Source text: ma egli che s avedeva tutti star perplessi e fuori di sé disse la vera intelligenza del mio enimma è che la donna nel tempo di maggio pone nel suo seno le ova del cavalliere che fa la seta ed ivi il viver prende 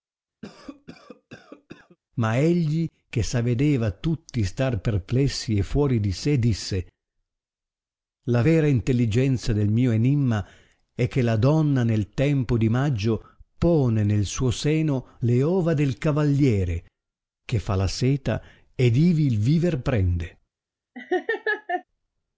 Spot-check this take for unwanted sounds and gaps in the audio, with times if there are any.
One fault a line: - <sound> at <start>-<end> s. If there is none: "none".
- cough at 0.4-2.0 s
- laugh at 20.9-21.8 s